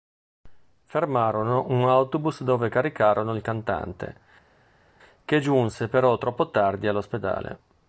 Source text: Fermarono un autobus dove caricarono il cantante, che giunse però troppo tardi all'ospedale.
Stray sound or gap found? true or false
false